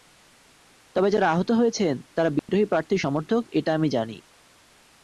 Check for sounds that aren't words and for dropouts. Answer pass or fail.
fail